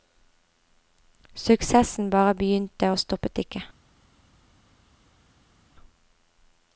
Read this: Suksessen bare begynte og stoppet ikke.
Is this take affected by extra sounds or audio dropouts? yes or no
no